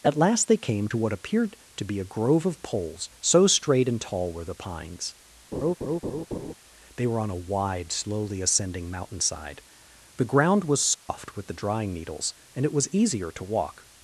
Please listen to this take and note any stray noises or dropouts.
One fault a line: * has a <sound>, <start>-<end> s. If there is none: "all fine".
* has a laugh, 5.5-6.5 s
* has a dropout, 10.9-11.1 s